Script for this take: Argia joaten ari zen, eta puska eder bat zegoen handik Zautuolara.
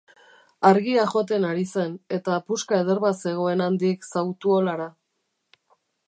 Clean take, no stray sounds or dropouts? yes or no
yes